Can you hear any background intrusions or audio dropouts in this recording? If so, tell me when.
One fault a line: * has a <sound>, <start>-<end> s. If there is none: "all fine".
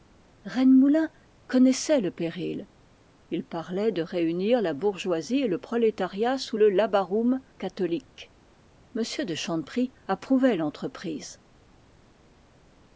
all fine